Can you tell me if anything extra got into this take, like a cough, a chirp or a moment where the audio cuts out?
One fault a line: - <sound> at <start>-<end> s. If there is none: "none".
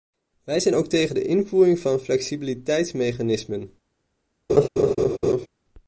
- laugh at 4.5-5.5 s